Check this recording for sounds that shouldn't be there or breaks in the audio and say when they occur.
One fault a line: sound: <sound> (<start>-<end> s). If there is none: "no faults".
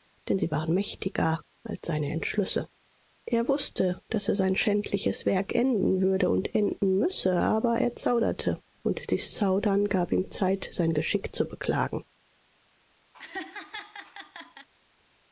sound: laugh (13.1-14.7 s)